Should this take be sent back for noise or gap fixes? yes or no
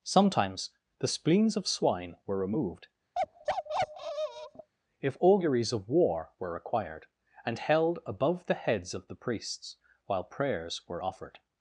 yes